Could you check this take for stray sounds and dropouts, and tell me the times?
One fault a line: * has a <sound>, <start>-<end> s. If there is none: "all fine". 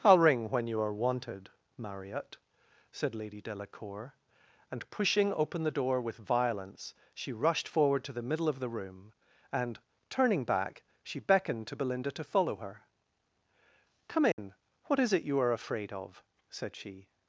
* has a dropout, 14.3-14.4 s